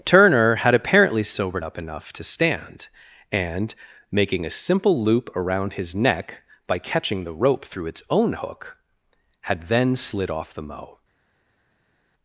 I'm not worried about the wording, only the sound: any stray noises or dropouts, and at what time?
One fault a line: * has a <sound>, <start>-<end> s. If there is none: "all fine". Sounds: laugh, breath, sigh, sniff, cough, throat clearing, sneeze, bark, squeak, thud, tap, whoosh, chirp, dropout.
all fine